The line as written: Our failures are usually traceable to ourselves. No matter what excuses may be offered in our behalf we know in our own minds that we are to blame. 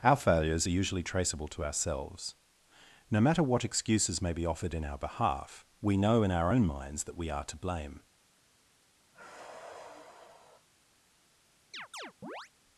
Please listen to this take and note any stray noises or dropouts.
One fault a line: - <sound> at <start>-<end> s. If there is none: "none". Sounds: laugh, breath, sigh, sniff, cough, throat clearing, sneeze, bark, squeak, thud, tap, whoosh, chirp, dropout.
- sigh at 9.1-10.7 s
- chirp at 11.7-12.5 s